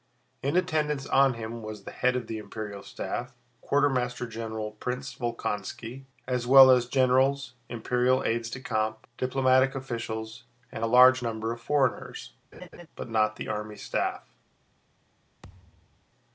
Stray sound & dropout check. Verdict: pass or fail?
fail